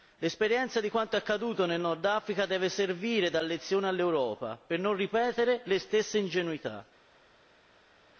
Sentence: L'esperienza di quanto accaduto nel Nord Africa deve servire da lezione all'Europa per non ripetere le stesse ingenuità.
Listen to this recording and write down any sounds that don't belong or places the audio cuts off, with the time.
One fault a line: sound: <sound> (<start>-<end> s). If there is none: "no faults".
no faults